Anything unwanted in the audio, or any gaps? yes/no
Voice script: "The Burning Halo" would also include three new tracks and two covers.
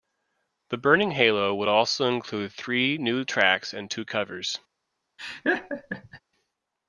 yes